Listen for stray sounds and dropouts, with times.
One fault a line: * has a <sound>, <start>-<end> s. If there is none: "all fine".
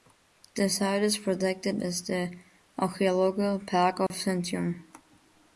* has a dropout, 4.1-4.1 s